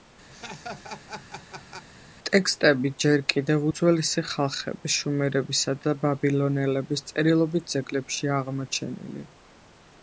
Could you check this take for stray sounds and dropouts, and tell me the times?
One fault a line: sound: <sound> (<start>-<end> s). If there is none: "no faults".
sound: laugh (0.3-1.9 s)